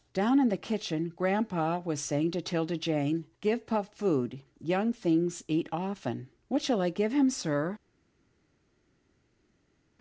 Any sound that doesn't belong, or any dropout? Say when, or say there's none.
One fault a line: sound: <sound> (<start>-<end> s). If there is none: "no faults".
no faults